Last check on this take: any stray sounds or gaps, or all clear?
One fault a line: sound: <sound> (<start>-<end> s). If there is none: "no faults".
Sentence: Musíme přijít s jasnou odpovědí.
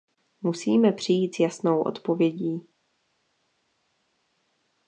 no faults